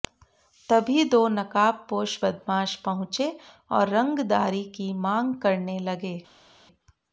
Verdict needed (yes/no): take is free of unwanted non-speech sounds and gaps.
yes